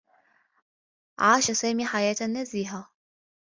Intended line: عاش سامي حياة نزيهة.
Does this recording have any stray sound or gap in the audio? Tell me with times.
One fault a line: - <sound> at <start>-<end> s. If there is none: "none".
none